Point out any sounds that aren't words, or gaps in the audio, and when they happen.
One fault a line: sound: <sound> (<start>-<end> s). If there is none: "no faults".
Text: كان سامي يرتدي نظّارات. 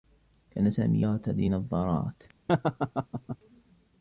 sound: laugh (2.5-3.4 s)